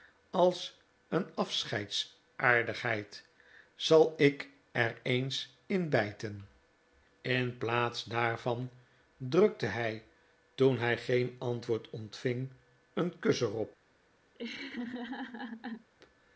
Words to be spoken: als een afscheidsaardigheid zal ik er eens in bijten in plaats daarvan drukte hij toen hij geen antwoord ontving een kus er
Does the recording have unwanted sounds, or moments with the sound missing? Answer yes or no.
yes